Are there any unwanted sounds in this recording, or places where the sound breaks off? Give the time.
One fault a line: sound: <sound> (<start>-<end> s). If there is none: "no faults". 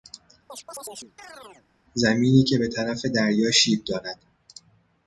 sound: chirp (0.5-1.7 s)